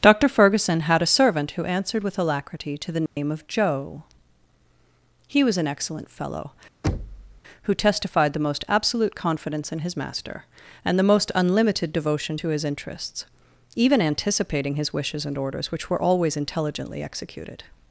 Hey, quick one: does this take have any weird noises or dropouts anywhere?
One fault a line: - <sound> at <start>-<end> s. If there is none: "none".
- dropout at 3.1-3.2 s
- thud at 6.8-7.4 s